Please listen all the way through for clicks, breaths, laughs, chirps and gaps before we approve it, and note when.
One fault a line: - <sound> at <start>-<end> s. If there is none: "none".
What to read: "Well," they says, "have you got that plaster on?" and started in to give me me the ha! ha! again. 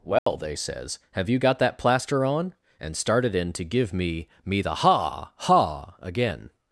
- dropout at 0.2-0.3 s